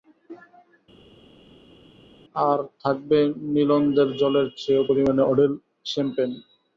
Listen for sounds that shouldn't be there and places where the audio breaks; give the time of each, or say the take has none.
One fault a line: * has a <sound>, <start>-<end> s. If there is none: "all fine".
all fine